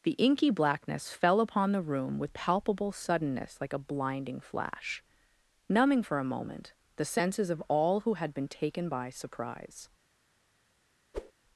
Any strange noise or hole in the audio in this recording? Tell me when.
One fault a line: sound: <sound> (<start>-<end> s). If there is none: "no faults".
sound: whoosh (11.1-11.3 s)